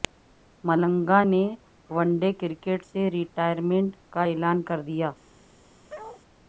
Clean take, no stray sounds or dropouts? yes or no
no